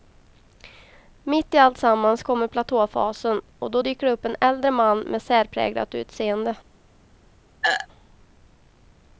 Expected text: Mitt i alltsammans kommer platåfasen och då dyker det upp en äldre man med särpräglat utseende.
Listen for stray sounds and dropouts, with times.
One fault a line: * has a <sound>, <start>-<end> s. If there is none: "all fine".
* has a throat clearing, 7.6-7.9 s